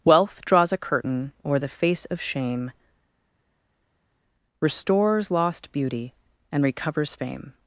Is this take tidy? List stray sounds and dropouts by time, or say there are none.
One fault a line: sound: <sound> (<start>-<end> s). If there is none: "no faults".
no faults